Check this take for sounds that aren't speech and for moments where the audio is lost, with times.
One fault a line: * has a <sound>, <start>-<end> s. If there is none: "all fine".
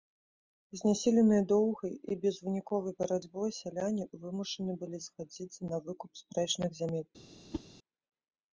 * has a whoosh, 7.5-7.6 s